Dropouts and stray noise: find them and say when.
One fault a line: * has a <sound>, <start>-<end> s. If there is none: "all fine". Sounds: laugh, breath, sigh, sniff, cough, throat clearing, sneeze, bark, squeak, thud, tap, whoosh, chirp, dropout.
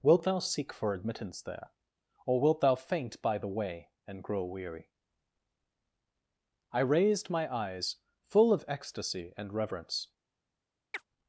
* has a chirp, 10.9-11.0 s